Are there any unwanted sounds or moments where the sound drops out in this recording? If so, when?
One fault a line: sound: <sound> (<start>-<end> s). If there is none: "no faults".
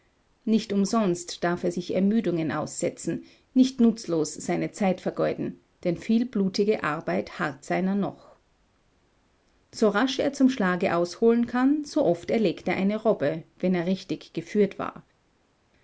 no faults